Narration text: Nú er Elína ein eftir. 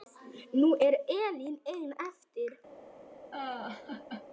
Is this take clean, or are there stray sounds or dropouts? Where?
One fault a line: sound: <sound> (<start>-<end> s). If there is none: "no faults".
sound: laugh (3.3-4.3 s)